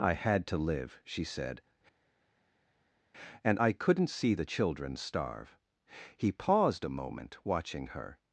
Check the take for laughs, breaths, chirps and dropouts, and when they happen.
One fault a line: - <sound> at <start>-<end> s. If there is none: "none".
none